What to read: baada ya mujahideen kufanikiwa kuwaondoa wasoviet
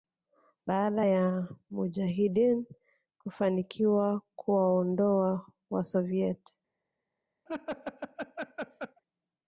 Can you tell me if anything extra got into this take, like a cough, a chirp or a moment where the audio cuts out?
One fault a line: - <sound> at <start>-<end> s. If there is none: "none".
- laugh at 7.5-9.0 s